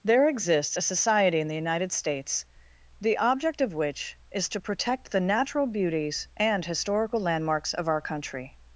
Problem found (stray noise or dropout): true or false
false